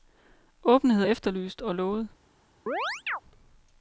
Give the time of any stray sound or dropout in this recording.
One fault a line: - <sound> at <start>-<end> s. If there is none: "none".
- chirp at 2.7-3.2 s